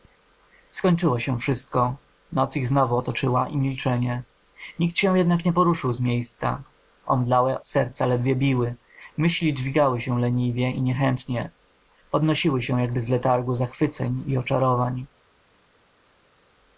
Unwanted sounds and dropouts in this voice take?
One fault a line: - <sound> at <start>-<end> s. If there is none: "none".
none